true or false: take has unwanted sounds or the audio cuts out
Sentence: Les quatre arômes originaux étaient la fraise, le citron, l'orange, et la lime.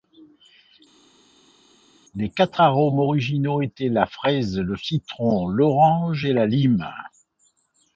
false